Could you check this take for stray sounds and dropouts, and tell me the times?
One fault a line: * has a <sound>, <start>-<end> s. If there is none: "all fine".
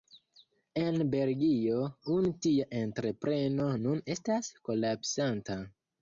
all fine